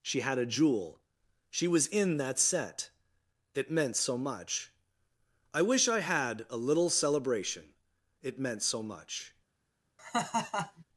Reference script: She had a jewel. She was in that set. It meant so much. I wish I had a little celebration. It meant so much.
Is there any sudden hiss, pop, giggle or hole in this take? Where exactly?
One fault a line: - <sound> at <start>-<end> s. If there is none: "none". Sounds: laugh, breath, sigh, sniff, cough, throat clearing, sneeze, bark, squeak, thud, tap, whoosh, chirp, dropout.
- laugh at 10.0-10.8 s